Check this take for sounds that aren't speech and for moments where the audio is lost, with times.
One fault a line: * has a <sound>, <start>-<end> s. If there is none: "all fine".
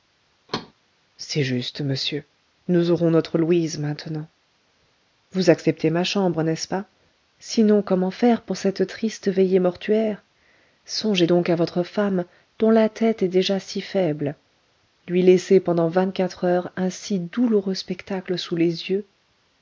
* has a thud, 0.5-0.7 s